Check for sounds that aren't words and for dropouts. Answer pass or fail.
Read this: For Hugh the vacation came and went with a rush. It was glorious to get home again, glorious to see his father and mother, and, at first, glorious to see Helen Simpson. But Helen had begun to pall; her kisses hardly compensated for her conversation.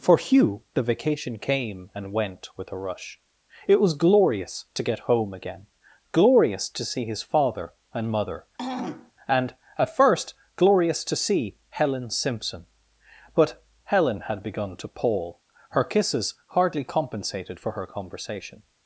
fail